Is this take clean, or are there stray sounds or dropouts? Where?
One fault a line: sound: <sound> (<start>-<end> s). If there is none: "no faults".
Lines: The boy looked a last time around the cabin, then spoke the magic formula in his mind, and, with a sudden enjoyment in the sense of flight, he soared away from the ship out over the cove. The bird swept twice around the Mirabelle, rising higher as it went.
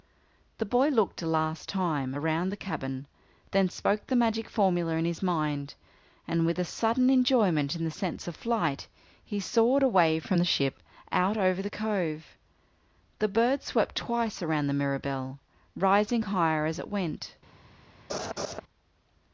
sound: laugh (18.1-18.6 s)